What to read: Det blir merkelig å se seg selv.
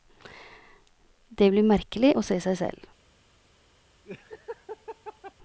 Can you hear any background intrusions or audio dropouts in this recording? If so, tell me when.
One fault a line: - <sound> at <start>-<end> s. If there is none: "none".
- laugh at 4.0-5.3 s